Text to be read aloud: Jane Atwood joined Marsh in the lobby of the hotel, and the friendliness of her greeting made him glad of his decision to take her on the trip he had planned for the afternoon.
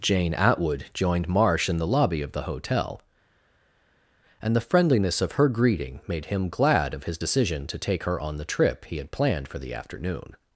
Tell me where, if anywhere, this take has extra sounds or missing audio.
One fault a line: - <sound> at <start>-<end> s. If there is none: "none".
none